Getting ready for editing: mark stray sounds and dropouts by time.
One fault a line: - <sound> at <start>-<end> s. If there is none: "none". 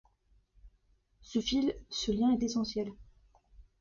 none